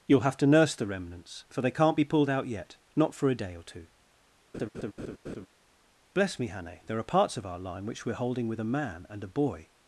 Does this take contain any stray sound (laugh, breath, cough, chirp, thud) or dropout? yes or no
yes